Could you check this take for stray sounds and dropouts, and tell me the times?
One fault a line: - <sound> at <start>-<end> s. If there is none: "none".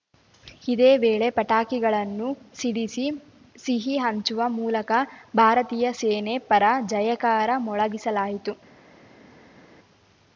none